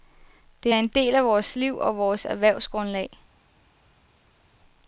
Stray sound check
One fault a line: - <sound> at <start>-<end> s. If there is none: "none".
none